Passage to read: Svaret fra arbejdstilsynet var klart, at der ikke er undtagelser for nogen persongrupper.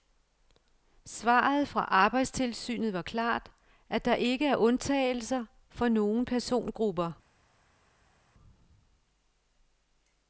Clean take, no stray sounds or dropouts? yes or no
yes